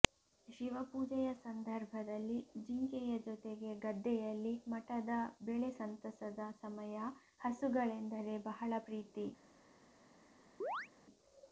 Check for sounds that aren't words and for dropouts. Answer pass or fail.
fail